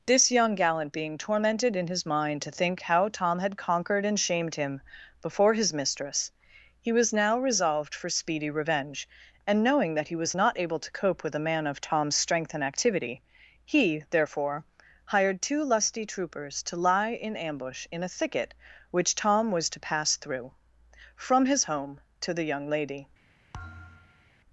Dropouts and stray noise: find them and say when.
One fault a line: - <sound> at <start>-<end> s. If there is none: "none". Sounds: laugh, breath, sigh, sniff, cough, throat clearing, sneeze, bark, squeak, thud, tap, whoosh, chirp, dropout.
- thud at 23.5-24.3 s